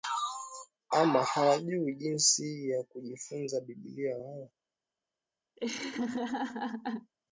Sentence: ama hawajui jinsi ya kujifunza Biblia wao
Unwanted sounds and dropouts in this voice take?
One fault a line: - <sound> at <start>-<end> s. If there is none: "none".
- laugh at 5.6-7.1 s